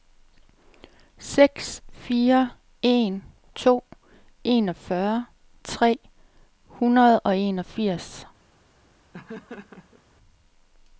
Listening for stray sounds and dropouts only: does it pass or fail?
fail